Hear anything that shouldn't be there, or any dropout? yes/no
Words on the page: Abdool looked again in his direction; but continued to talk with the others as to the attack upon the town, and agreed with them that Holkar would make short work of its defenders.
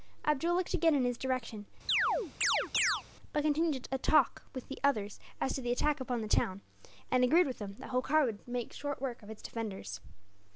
yes